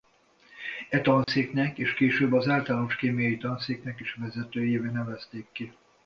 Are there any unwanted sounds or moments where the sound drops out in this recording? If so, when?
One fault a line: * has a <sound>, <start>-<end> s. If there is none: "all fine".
* has a dropout, 1.2-1.3 s